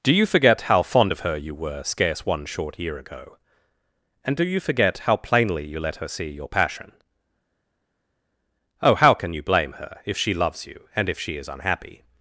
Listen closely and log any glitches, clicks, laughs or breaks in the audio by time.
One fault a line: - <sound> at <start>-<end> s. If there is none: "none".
none